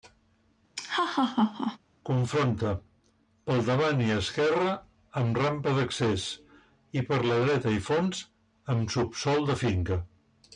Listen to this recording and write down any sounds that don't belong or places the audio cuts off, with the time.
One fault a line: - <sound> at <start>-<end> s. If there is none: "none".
- laugh at 0.8-1.8 s